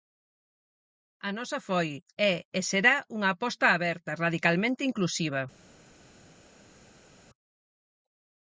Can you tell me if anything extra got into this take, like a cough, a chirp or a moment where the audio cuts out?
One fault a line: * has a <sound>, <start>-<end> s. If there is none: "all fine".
all fine